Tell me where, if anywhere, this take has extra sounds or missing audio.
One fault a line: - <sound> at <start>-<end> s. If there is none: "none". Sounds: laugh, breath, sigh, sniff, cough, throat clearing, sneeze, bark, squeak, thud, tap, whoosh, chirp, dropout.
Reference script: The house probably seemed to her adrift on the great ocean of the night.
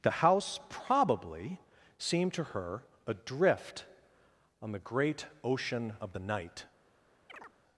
- chirp at 7.3-7.5 s